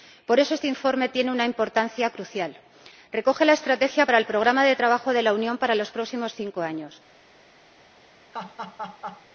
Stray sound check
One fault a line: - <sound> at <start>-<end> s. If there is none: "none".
- laugh at 8.3-9.3 s